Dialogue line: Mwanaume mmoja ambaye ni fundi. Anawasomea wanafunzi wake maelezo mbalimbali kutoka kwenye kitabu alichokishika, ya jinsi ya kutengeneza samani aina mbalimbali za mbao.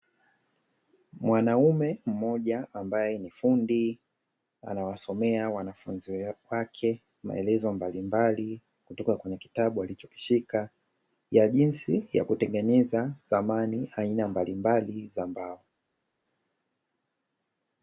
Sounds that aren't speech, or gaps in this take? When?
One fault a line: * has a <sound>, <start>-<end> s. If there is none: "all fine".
all fine